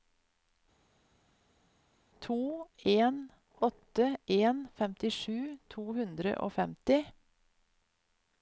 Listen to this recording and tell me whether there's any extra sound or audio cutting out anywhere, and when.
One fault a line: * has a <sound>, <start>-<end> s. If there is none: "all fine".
all fine